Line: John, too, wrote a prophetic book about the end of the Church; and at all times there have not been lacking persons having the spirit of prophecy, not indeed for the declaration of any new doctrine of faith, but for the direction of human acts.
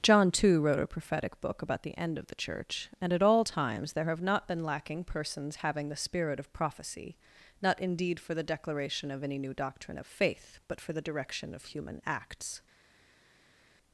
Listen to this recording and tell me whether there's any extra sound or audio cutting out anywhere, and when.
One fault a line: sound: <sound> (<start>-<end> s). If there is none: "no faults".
no faults